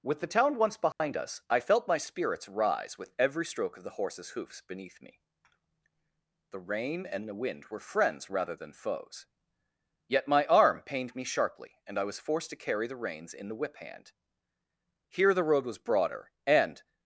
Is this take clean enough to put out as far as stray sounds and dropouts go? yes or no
no